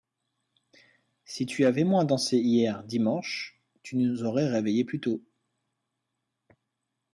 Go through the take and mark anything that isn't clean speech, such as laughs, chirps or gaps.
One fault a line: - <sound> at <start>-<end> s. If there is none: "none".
none